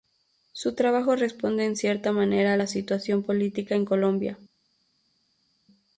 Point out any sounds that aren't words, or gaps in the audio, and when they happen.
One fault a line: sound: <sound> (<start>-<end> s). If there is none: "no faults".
no faults